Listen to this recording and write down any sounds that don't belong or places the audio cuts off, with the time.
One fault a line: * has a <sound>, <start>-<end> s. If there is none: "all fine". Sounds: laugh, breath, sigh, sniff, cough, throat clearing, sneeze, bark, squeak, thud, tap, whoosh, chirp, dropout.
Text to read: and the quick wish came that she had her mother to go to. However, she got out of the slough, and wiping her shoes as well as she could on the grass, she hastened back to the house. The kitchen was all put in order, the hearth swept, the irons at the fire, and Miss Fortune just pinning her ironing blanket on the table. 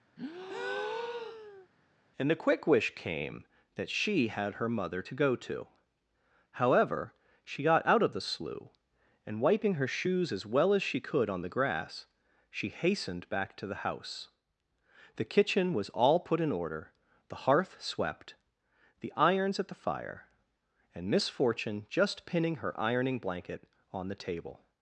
* has a breath, 0.2-1.7 s